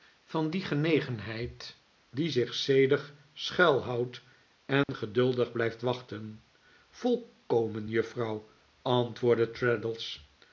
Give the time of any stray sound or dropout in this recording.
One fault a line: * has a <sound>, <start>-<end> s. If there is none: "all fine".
* has a dropout, 4.8-4.9 s